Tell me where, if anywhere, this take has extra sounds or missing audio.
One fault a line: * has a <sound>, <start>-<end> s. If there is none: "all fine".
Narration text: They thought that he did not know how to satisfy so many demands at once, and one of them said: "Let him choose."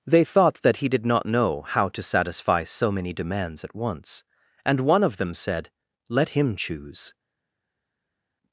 all fine